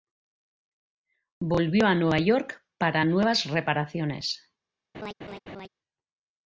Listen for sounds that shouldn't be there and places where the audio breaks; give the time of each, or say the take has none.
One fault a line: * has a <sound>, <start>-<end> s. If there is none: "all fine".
* has a laugh, 4.9-5.7 s